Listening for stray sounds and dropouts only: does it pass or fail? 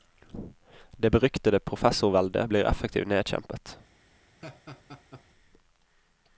fail